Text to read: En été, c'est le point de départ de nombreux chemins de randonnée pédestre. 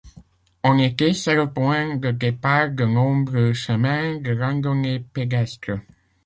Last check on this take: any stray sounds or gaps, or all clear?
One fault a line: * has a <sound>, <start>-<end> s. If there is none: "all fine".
all fine